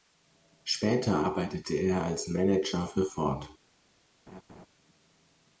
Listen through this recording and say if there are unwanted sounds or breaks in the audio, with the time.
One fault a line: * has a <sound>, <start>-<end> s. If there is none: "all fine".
* has a laugh, 4.3-4.7 s